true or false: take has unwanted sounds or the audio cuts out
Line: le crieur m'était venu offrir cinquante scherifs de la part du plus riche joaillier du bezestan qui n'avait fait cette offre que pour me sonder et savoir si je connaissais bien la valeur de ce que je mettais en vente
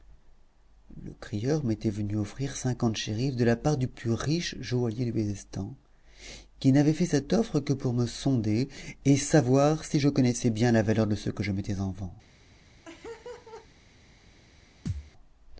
true